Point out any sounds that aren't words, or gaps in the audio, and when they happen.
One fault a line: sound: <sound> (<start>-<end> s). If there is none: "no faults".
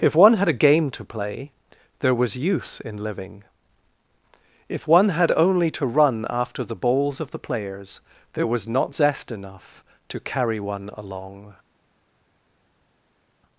no faults